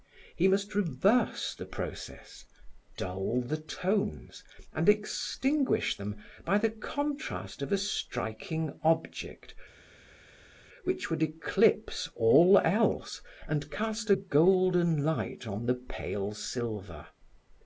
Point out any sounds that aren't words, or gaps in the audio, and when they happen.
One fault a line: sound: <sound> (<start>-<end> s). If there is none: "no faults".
no faults